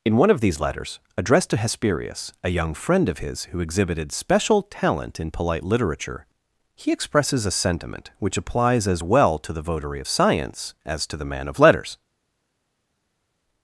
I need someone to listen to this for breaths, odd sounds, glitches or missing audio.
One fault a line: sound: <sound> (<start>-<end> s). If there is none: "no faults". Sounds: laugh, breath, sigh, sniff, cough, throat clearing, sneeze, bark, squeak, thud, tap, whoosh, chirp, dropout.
no faults